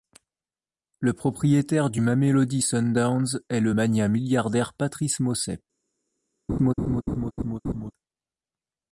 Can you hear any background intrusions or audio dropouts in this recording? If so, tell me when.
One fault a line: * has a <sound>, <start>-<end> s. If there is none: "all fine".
* has a laugh, 6.5-7.9 s